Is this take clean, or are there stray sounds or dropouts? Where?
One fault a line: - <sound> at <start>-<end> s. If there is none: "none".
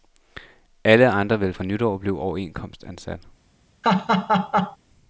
- laugh at 3.8-4.8 s